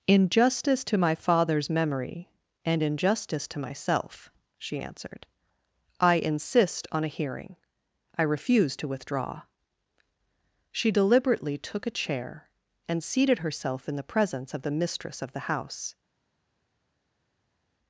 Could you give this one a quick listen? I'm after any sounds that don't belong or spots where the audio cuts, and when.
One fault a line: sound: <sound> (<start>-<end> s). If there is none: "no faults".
no faults